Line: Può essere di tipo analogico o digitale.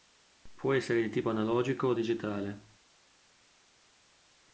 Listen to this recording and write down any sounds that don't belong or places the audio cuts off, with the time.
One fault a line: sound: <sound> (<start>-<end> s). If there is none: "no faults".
no faults